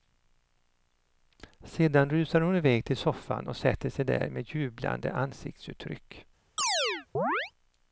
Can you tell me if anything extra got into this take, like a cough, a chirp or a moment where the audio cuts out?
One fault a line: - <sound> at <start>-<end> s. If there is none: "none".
- chirp at 6.6-7.5 s